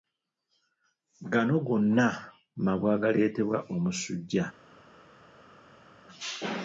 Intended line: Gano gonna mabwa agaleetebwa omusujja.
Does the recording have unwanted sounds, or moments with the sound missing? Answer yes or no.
no